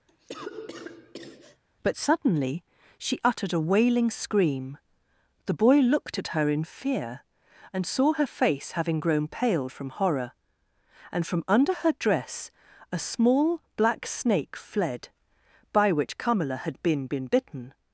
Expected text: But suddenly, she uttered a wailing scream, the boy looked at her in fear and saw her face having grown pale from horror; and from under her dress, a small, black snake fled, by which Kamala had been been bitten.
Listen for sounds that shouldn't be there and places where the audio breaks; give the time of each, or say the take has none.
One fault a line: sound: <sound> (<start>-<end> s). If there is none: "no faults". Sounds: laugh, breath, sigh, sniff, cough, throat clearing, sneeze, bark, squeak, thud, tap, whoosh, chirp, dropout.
sound: cough (0.1-1.6 s)